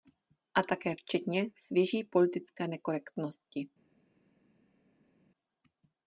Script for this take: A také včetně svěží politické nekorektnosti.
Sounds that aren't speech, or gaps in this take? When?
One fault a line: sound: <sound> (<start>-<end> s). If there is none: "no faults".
no faults